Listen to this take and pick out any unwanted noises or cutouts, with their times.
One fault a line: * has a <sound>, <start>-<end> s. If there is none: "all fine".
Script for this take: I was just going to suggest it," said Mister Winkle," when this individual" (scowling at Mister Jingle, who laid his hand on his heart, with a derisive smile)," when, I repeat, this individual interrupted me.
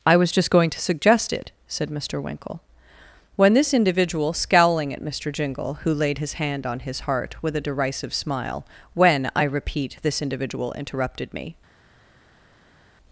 all fine